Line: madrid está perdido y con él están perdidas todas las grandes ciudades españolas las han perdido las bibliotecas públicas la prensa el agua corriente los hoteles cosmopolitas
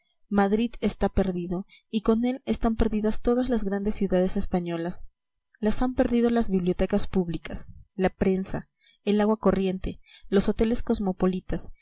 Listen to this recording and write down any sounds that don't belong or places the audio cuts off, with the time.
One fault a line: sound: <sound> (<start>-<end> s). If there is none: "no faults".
no faults